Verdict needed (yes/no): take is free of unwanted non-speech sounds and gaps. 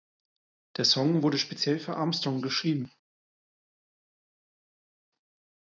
yes